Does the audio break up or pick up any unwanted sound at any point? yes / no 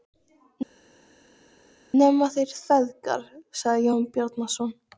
no